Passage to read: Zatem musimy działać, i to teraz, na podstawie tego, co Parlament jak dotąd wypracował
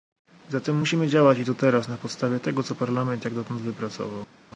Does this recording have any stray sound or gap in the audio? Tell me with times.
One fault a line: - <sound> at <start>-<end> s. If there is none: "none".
none